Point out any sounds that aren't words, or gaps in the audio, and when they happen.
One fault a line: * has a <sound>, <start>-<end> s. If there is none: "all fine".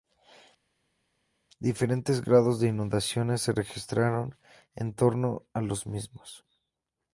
all fine